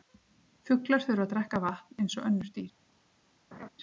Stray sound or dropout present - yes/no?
yes